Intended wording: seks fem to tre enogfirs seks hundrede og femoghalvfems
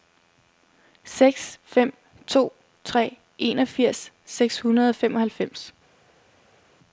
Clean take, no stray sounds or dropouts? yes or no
yes